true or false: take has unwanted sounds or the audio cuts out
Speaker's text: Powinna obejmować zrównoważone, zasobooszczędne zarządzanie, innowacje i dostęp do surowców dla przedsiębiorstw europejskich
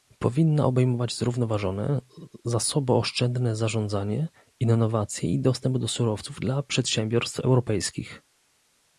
false